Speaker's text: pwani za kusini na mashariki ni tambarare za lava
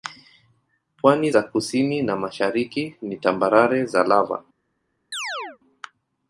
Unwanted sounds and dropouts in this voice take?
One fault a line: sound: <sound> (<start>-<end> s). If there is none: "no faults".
sound: chirp (5.1-5.6 s)